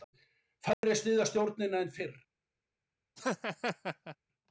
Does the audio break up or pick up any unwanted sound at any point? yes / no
yes